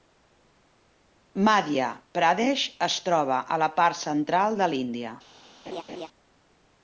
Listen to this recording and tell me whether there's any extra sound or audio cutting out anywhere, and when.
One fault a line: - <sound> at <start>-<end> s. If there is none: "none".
- laugh at 5.7-6.1 s